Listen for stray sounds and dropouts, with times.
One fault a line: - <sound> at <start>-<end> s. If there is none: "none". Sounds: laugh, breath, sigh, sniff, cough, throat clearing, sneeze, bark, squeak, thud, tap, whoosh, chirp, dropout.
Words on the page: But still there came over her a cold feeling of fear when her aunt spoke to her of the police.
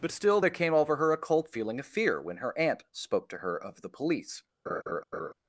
- laugh at 4.7-5.3 s